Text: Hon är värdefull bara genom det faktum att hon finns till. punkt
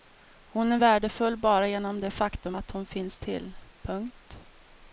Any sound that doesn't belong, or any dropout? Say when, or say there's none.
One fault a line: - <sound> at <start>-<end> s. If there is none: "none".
none